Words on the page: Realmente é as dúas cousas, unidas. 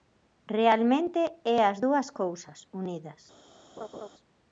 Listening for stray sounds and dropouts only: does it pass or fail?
fail